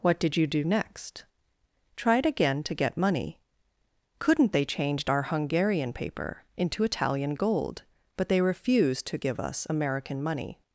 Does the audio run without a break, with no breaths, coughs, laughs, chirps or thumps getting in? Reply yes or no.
yes